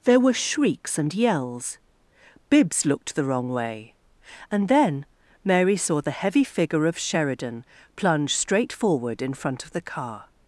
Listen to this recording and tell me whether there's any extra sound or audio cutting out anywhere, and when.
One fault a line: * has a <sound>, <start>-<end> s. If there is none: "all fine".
all fine